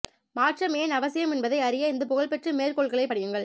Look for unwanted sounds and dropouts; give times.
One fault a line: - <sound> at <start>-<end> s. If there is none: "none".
none